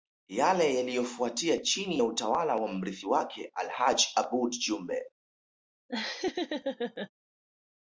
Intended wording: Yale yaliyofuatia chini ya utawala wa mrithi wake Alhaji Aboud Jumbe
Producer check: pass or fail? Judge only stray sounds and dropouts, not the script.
fail